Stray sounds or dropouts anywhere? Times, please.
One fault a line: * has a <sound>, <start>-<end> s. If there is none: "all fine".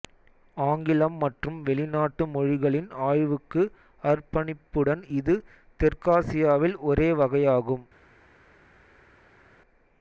all fine